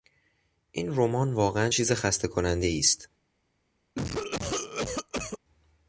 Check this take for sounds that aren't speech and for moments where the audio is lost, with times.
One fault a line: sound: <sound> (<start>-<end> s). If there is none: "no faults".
sound: cough (4.0-5.4 s)